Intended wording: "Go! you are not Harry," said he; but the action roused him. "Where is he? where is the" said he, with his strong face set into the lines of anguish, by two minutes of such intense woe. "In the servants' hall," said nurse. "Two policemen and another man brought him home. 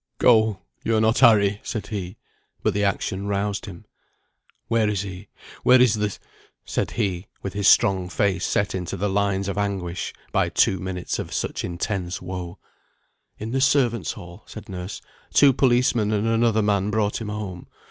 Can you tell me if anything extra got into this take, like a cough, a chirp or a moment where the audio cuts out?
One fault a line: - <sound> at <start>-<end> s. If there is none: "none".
none